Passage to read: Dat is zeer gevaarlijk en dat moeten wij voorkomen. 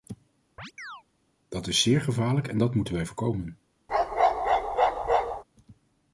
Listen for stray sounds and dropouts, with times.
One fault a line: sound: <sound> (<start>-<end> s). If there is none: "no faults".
sound: chirp (0.6-1.0 s)
sound: bark (3.9-5.4 s)